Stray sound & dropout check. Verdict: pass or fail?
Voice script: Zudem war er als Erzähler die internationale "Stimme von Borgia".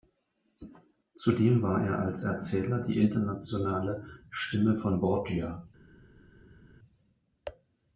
pass